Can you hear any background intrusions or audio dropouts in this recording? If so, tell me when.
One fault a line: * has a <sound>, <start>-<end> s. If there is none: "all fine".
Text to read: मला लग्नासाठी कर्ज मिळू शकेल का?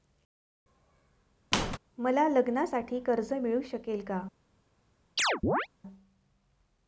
* has a squeak, 1.5-1.8 s
* has a chirp, 5.2-5.7 s